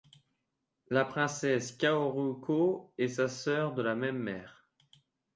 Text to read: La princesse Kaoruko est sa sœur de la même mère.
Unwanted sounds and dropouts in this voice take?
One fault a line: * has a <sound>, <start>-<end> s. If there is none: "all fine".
all fine